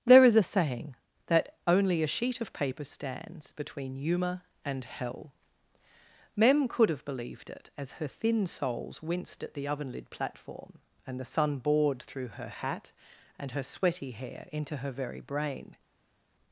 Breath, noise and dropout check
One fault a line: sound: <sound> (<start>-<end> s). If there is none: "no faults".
no faults